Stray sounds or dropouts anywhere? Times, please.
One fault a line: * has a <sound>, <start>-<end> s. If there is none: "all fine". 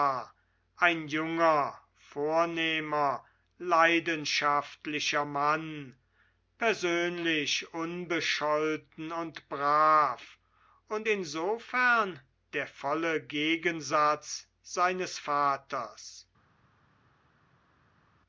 all fine